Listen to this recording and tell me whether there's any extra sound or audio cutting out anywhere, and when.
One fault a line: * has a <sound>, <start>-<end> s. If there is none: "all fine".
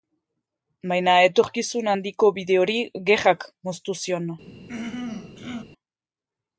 * has a throat clearing, 4.7-5.6 s